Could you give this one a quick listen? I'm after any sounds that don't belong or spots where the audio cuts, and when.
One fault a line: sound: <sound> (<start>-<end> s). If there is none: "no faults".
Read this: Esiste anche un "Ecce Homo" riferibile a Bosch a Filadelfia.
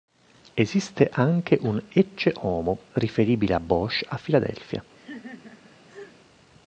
sound: laugh (4.9-6.2 s)